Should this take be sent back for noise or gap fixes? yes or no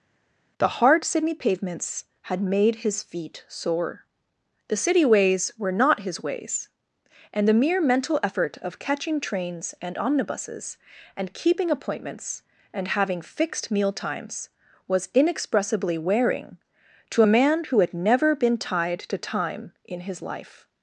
no